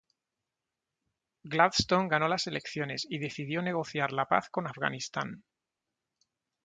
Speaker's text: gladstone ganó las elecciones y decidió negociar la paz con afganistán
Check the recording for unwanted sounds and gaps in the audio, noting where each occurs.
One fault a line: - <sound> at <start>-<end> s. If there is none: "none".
none